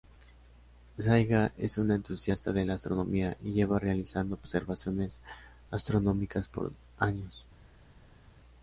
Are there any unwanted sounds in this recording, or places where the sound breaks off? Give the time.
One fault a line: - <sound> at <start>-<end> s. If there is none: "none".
none